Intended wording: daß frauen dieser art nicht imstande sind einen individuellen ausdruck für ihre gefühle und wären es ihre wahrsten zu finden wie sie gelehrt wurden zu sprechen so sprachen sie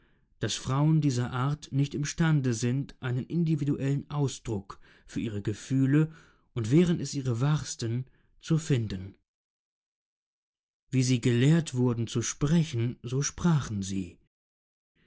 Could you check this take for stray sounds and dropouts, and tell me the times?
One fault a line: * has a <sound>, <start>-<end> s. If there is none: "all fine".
all fine